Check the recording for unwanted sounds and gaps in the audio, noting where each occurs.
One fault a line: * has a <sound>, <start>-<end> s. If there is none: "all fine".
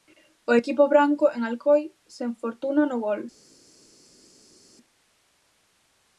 all fine